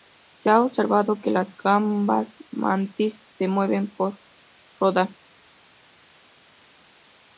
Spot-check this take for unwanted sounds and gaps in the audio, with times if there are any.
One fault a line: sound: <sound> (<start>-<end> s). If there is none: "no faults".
no faults